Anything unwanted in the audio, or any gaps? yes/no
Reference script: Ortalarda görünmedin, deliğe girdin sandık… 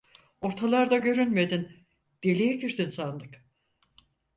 no